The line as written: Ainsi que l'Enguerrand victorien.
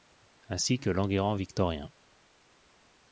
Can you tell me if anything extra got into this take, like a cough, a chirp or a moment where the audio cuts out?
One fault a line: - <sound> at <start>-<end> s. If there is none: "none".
none